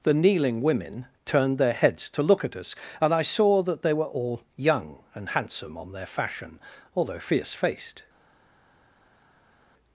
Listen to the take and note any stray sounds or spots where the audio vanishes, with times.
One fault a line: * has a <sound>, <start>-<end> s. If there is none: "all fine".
all fine